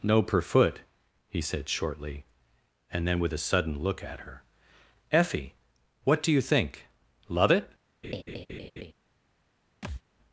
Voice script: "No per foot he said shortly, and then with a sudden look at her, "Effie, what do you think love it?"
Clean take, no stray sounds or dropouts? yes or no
no